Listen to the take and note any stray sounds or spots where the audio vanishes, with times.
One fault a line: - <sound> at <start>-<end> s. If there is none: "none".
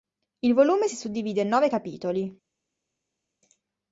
none